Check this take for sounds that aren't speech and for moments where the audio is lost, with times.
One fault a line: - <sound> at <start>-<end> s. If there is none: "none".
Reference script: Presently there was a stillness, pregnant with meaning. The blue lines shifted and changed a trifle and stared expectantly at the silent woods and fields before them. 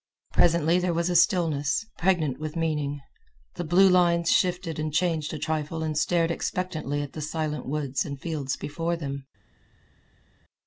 none